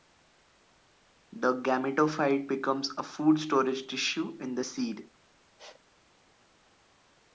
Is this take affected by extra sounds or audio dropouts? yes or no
no